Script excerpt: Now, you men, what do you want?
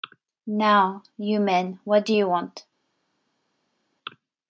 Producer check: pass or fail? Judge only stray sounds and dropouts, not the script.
pass